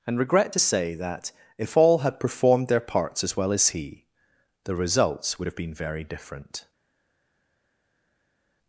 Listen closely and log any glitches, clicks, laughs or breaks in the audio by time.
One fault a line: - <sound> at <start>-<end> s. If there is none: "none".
none